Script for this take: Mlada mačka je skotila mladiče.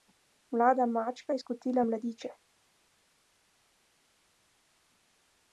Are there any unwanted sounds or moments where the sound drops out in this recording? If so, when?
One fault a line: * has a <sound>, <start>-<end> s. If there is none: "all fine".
all fine